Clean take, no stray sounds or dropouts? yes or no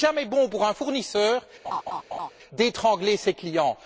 no